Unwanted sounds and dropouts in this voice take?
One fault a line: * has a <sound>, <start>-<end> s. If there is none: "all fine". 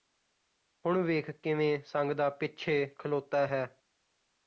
all fine